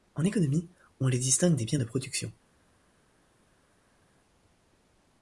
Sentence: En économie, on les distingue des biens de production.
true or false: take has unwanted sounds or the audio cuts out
false